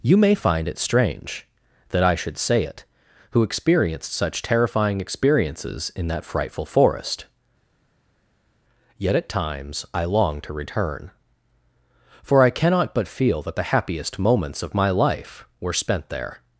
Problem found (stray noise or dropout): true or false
false